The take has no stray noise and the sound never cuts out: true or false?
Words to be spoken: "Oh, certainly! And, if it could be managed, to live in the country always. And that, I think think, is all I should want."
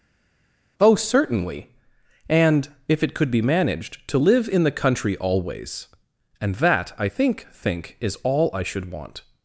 true